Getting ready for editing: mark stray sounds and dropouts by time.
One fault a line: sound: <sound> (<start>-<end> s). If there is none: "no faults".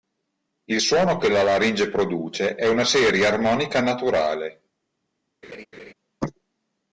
sound: laugh (5.4-5.9 s)